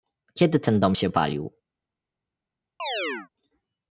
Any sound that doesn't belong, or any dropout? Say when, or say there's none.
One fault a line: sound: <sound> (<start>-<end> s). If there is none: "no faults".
sound: chirp (2.8-3.3 s)